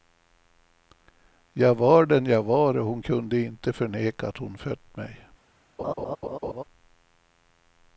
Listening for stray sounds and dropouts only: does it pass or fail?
fail